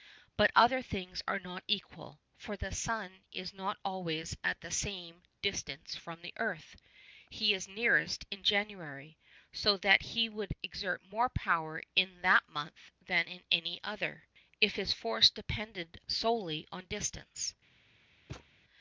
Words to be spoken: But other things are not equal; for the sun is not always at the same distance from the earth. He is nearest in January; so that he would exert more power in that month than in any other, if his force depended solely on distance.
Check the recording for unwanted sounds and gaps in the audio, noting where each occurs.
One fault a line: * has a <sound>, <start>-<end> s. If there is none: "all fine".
* has a thud, 18.3-18.5 s